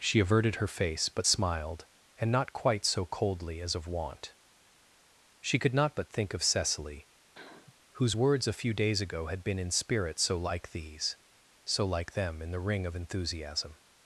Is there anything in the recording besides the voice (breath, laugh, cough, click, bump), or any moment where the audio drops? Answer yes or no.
yes